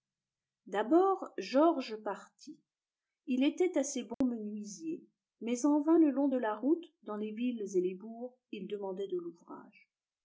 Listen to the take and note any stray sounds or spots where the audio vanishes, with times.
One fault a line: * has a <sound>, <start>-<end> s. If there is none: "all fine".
* has a dropout, 4.1-4.2 s